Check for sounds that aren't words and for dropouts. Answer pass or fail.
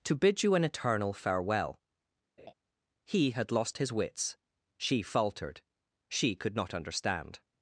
fail